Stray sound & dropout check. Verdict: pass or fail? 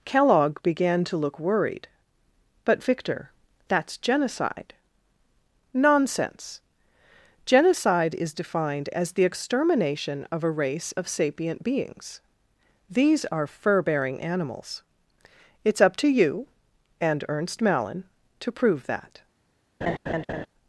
fail